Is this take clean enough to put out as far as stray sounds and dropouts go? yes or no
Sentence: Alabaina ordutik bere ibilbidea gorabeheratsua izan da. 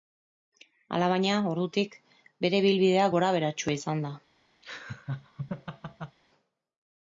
no